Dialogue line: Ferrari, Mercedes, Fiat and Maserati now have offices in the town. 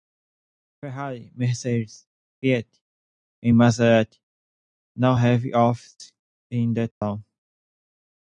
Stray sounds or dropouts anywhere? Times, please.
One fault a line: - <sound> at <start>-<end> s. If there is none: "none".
- dropout at 6.9-7.0 s